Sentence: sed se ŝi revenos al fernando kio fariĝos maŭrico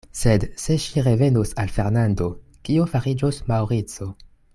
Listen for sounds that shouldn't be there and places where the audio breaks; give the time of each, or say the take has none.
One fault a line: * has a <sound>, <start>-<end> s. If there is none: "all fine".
all fine